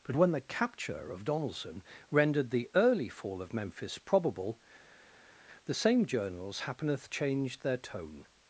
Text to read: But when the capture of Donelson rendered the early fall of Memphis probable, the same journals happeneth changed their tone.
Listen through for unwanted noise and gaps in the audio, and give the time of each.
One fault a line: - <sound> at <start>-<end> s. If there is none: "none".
none